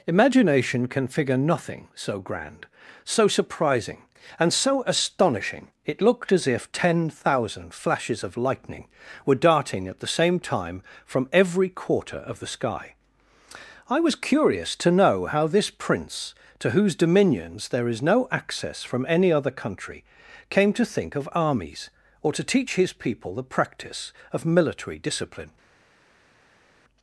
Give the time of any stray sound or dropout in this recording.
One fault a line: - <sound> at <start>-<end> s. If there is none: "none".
none